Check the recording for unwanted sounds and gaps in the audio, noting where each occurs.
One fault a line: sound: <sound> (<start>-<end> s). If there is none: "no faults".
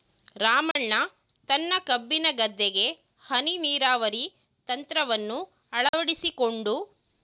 sound: dropout (0.7-0.8 s)
sound: dropout (5.9-5.9 s)